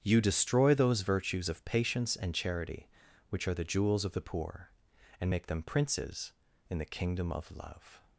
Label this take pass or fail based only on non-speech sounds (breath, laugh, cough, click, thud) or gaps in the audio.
pass